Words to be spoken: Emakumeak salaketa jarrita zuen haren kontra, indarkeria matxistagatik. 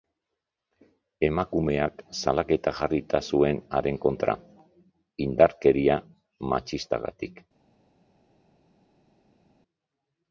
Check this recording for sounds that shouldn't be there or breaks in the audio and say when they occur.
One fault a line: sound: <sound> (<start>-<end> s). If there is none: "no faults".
no faults